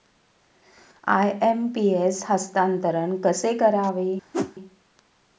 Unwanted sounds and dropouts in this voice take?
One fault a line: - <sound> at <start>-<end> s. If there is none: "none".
- whoosh at 4.3-4.6 s